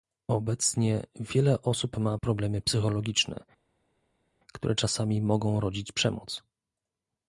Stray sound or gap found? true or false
false